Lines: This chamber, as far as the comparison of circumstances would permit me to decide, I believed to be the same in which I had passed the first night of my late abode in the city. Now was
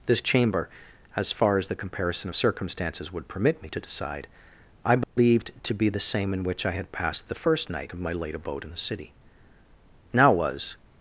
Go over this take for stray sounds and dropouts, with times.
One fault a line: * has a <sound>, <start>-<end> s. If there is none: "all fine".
* has a dropout, 5.0-5.2 s